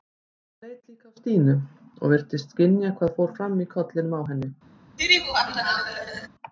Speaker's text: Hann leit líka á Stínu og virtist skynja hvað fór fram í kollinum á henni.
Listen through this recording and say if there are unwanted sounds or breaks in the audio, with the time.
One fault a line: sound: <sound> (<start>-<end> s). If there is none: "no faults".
sound: laugh (5.0-6.3 s)